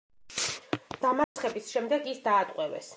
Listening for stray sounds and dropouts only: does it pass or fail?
fail